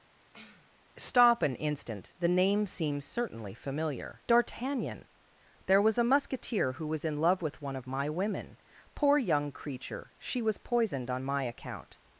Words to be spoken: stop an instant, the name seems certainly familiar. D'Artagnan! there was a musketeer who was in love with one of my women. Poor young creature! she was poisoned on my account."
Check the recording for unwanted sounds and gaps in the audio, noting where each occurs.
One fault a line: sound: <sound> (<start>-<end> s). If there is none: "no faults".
sound: sniff (0.2-0.7 s)